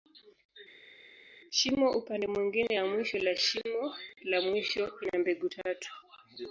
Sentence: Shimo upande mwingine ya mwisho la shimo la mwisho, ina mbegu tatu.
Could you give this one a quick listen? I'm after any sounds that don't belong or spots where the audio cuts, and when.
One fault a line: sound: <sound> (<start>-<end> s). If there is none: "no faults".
no faults